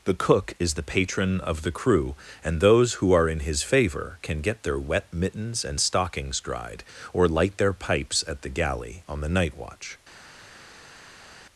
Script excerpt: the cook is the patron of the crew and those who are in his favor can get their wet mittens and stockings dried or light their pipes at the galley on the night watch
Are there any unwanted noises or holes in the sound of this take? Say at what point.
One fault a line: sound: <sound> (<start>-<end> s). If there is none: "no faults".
no faults